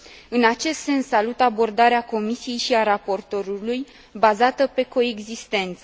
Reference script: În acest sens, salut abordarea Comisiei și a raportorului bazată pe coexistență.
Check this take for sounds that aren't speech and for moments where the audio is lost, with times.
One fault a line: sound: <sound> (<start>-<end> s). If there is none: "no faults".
no faults